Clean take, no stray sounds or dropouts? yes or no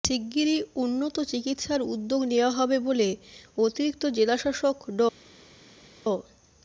yes